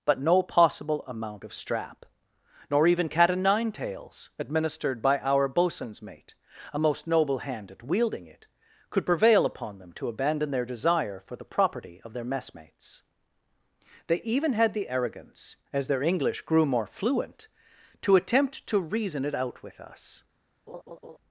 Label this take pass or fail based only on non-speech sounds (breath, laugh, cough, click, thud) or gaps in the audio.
fail